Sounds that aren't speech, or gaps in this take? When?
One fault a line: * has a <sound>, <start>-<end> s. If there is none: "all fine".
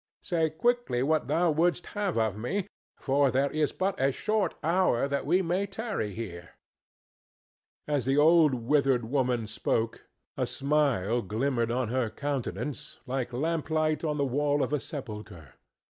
all fine